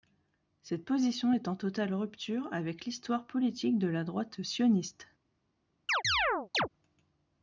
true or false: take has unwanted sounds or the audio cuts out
true